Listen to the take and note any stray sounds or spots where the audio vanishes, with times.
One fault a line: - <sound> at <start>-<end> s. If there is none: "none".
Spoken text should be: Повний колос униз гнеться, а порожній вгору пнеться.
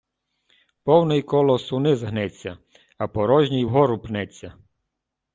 none